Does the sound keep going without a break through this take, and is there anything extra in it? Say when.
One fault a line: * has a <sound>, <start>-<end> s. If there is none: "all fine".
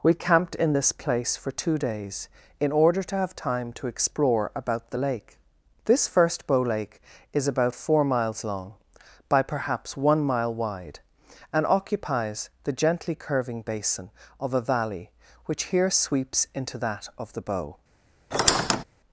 * has a squeak, 18.3-18.8 s